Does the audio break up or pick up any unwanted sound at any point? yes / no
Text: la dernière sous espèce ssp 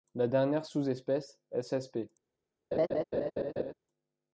yes